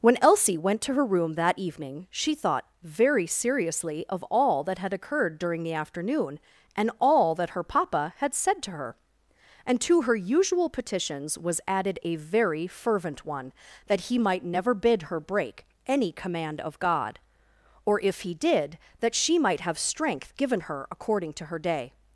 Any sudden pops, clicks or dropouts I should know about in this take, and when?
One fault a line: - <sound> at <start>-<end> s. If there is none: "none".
none